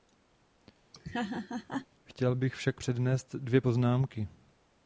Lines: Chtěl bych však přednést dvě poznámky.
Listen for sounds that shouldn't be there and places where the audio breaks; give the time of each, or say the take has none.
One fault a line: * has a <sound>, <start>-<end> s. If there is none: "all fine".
* has a laugh, 0.9-1.9 s